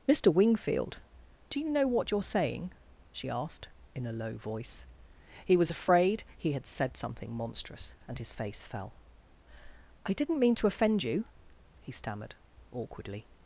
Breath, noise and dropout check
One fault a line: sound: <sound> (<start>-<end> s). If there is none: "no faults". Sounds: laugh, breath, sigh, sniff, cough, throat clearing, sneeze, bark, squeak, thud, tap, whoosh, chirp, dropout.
no faults